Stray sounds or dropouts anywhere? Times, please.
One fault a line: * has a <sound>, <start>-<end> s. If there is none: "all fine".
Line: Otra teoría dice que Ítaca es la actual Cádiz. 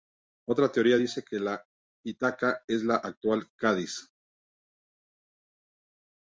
all fine